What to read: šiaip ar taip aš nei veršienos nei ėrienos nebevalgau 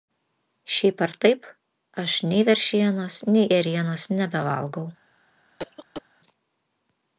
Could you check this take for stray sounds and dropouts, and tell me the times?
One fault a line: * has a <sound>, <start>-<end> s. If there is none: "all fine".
* has a cough, 5.6-6.0 s